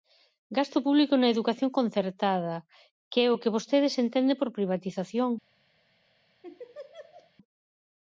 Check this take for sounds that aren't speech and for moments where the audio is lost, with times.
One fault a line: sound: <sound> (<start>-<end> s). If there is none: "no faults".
sound: laugh (6.4-7.3 s)